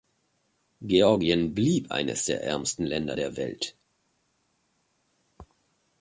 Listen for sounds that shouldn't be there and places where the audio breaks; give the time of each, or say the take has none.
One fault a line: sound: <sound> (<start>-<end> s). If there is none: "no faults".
no faults